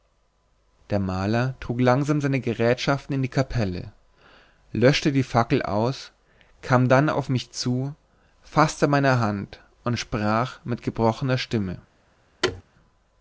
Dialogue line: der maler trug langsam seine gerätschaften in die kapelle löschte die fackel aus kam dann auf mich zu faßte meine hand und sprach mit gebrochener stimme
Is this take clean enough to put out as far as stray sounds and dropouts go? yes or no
no